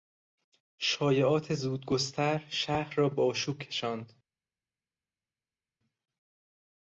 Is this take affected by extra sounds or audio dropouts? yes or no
no